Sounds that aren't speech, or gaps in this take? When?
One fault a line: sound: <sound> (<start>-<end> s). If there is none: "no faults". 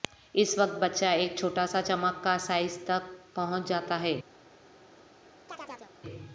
sound: chirp (5.5-5.9 s)